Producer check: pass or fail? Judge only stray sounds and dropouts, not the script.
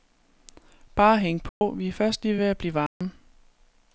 fail